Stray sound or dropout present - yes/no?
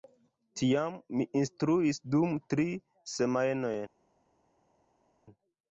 no